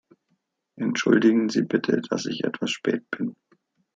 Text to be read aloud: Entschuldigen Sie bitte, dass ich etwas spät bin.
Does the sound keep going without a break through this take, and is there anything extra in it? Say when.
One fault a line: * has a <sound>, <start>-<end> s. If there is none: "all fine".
all fine